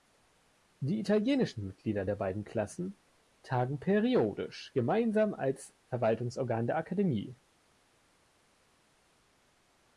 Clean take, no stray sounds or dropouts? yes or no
yes